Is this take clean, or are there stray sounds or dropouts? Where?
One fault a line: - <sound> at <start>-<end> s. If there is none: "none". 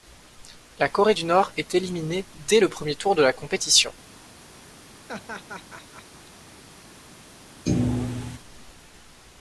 - laugh at 5.1-6.3 s
- thud at 7.7-8.4 s